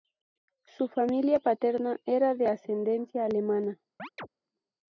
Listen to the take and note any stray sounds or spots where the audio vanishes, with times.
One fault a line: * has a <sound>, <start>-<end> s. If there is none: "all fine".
* has a chirp, 4.0-4.3 s